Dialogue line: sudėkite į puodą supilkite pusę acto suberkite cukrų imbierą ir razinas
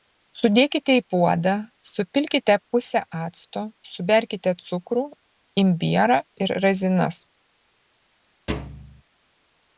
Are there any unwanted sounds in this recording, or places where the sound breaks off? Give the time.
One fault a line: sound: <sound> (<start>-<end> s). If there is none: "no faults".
sound: thud (8.5-9.0 s)